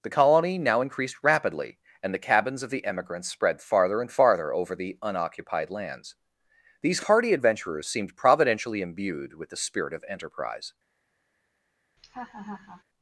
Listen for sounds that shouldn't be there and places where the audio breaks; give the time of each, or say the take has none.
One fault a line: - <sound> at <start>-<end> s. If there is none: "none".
- laugh at 12.0-12.8 s